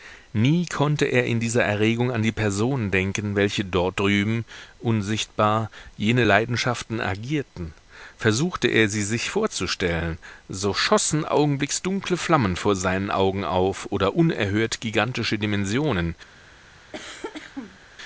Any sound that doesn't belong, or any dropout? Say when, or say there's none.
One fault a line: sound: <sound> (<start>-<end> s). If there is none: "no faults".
sound: cough (16.9-17.8 s)